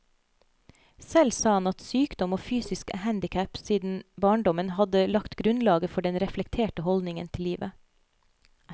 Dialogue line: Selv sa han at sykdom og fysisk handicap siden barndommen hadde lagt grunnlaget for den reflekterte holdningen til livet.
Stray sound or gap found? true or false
false